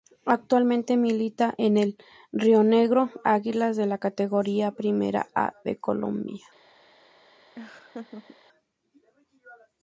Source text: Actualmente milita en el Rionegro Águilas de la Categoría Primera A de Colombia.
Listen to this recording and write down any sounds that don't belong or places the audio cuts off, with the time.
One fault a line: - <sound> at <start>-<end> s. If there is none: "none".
- laugh at 7.6-8.4 s